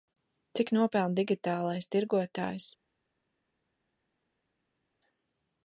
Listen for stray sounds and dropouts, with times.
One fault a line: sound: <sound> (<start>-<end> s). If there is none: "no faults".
no faults